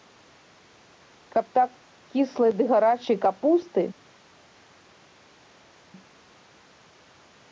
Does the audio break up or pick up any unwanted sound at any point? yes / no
no